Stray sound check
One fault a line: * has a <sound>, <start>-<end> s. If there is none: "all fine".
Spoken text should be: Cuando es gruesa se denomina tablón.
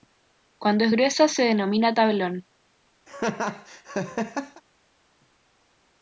* has a laugh, 3.1-4.6 s